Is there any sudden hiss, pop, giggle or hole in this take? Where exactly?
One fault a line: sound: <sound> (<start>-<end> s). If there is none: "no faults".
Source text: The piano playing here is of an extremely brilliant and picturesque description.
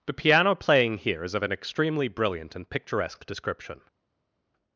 no faults